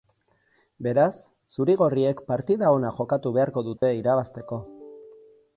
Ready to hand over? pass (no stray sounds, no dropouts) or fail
fail